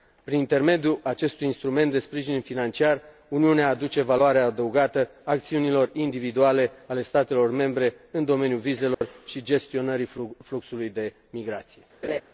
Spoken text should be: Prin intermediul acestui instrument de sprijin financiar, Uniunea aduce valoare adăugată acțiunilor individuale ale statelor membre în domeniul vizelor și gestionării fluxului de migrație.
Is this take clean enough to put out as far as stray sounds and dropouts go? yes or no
no